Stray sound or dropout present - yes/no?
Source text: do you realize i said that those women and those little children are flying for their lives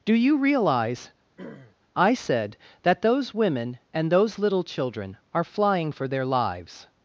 yes